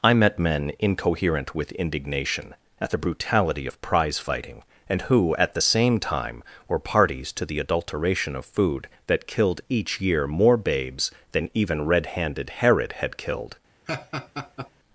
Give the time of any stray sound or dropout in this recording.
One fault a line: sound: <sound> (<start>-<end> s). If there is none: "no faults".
sound: laugh (13.9-14.7 s)